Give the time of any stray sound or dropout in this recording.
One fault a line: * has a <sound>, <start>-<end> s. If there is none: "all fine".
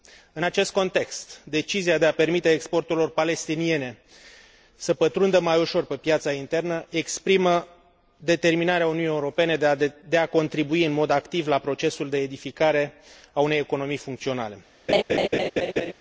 * has a laugh, 14.9-15.9 s